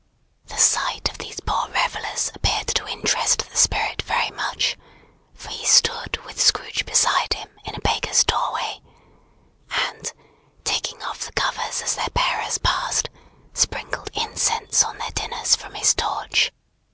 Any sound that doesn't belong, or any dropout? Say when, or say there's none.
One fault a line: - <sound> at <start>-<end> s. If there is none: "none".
none